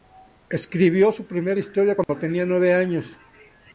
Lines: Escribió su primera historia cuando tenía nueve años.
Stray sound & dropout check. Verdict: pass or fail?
fail